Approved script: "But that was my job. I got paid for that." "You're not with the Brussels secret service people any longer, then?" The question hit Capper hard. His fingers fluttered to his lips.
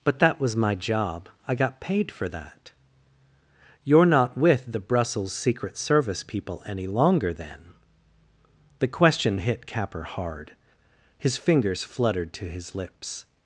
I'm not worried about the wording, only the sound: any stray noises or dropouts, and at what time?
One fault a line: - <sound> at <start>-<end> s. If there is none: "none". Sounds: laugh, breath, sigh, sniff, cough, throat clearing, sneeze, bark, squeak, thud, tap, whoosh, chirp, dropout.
none